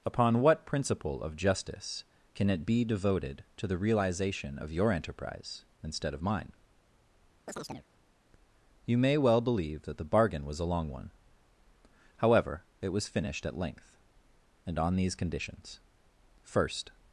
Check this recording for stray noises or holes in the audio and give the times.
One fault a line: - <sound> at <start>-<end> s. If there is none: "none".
- chirp at 7.5-7.9 s